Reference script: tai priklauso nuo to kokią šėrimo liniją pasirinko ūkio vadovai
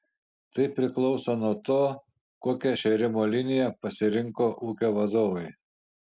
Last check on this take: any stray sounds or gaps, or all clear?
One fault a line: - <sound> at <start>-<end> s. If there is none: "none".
none